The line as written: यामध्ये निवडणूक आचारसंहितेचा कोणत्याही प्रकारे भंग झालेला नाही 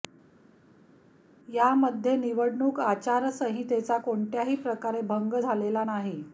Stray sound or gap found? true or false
false